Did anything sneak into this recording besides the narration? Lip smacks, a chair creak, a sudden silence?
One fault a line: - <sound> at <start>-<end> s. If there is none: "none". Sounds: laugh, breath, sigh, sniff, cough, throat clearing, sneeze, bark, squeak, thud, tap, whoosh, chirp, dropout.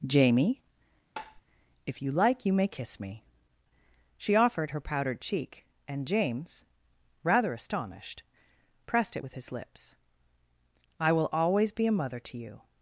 - tap at 1.2-1.4 s